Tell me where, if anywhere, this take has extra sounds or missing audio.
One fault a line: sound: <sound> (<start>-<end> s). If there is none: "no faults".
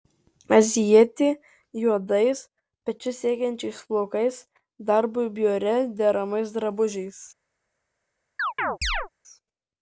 sound: chirp (8.4-9.1 s)